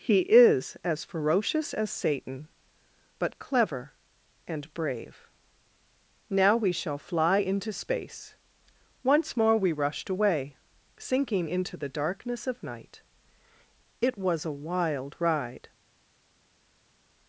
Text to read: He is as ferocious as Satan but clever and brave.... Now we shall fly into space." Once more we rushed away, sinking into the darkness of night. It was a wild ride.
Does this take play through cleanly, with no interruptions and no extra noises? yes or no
yes